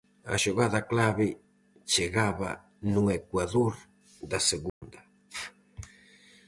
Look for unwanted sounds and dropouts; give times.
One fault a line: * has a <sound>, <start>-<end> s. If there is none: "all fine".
* has a dropout, 4.7-4.8 s